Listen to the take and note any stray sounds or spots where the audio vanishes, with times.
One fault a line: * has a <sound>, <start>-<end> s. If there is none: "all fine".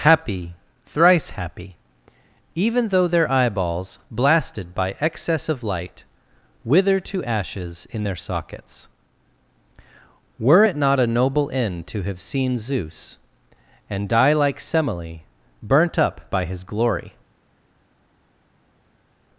all fine